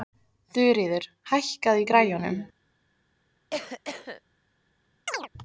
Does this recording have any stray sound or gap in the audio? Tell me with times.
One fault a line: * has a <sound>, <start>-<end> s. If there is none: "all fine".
* has a cough, 3.5-4.2 s
* has a chirp, 5.1-5.3 s